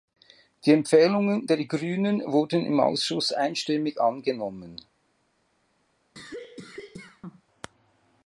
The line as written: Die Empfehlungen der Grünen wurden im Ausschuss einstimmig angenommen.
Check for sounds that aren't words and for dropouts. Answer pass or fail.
fail